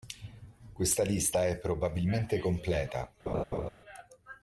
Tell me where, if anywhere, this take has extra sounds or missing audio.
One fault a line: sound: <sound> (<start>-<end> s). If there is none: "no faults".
sound: laugh (3.3-3.7 s)